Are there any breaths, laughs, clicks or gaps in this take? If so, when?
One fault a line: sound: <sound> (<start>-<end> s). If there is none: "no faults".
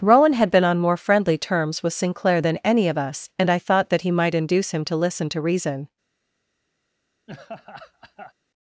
sound: laugh (7.3-8.3 s)